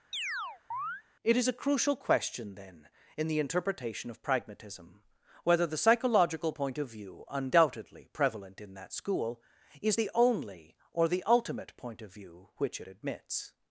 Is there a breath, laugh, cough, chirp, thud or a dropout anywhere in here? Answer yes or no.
yes